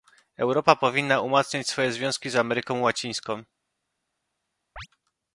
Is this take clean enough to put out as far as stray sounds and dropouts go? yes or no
no